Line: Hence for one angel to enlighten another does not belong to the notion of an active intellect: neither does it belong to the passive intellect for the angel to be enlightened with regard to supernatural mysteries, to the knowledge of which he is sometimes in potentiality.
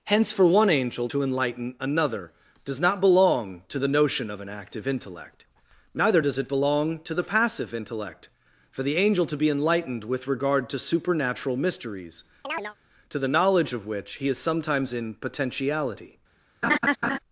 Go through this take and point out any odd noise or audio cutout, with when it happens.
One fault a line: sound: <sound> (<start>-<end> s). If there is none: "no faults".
sound: chirp (12.4-12.8 s)
sound: laugh (16.6-17.2 s)